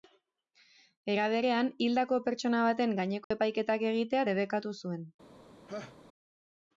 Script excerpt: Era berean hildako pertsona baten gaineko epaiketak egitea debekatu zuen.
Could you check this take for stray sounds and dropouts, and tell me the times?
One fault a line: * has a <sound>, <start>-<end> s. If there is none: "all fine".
* has a dropout, 3.2-3.3 s
* has a laugh, 5.7-6.0 s